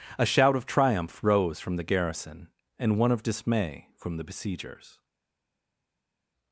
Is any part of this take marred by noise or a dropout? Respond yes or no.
no